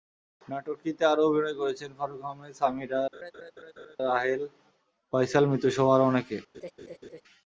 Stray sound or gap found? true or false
true